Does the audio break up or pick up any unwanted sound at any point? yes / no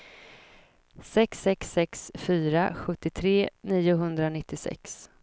no